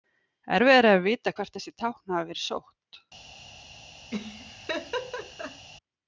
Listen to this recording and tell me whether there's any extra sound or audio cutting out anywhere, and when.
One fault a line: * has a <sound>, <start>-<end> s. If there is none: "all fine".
* has a laugh, 4.1-5.7 s